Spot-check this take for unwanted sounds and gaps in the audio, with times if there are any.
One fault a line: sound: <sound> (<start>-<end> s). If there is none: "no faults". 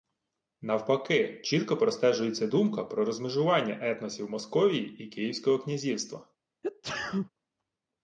sound: sneeze (6.6-7.3 s)